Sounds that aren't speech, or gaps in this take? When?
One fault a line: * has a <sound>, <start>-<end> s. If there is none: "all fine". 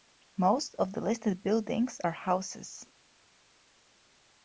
all fine